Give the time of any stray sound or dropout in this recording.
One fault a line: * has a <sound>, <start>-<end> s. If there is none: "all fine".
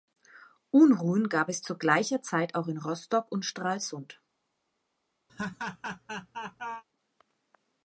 * has a laugh, 5.3-6.8 s